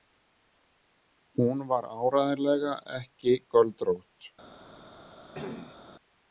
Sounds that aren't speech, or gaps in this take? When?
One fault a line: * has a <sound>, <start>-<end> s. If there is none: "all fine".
* has a cough, 5.3-5.8 s